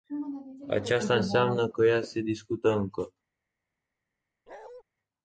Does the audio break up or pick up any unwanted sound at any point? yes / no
yes